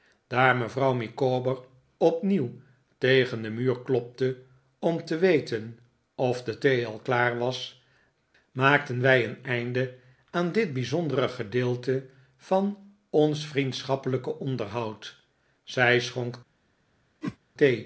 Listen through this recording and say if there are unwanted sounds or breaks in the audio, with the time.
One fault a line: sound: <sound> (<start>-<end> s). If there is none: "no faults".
sound: whoosh (17.2-17.4 s)